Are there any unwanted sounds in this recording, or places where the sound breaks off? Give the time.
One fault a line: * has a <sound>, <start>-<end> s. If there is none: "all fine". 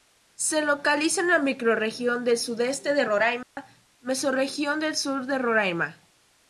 * has a dropout, 3.4-3.6 s